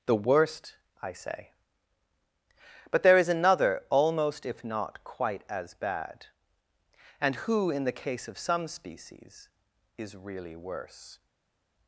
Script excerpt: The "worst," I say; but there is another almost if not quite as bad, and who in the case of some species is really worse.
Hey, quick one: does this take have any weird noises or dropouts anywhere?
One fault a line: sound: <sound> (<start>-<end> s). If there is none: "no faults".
no faults